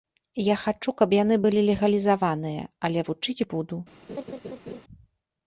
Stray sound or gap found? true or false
true